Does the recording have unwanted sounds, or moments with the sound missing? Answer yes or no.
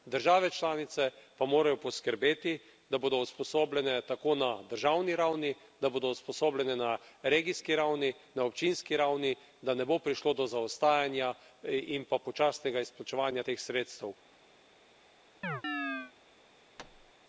yes